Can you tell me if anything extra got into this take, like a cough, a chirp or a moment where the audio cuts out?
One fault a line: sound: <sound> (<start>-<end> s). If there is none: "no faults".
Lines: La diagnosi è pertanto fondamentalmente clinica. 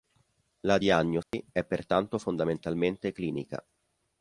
sound: dropout (1.2-1.3 s)